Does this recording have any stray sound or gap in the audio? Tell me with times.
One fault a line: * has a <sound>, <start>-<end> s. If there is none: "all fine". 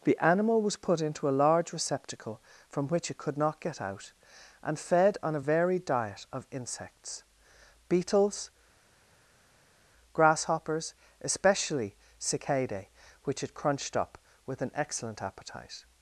all fine